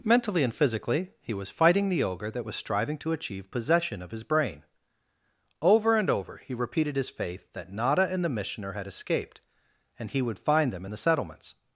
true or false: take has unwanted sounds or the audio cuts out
false